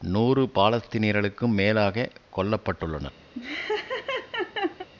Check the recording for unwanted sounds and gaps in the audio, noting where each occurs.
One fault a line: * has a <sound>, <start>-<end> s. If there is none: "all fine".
* has a laugh, 3.3-4.9 s